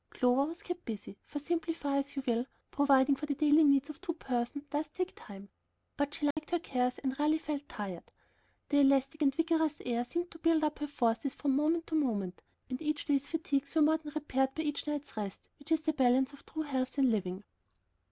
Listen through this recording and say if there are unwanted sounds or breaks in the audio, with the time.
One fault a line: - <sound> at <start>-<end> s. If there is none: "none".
- dropout at 6.3-6.4 s